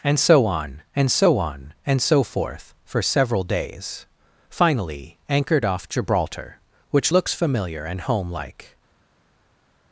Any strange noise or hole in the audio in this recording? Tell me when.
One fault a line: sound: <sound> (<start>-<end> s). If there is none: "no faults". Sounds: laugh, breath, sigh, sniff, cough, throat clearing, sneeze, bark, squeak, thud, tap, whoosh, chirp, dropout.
no faults